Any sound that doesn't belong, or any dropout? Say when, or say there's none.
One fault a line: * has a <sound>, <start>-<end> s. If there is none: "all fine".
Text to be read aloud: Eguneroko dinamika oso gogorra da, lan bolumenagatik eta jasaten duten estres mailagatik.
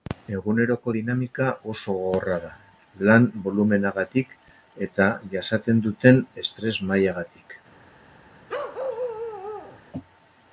* has a bark, 8.5-9.8 s